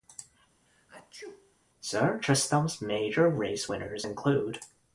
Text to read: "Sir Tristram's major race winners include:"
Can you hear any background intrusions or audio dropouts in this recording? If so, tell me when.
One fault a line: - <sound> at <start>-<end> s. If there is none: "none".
- sneeze at 0.7-1.5 s